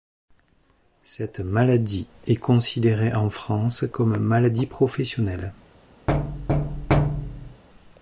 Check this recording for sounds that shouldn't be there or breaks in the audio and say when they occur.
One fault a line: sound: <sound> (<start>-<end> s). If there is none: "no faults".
sound: thud (6.1-7.6 s)